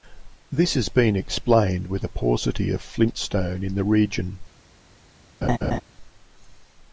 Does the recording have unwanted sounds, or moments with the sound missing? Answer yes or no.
yes